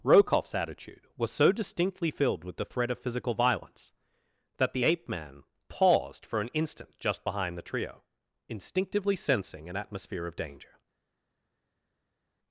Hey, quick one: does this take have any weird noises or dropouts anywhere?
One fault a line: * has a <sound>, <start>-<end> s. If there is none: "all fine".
all fine